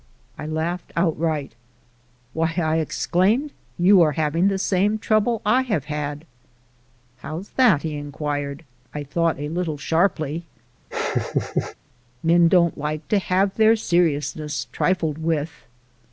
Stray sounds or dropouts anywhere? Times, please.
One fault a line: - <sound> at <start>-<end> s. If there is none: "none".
- laugh at 10.9-11.8 s